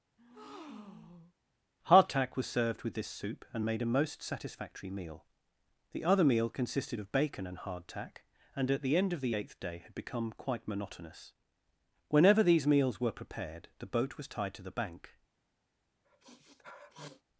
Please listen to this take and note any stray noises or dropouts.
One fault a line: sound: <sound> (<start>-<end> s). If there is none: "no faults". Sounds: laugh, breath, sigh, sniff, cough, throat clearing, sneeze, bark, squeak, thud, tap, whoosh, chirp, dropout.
sound: breath (0.2-1.3 s)
sound: sniff (16.0-17.2 s)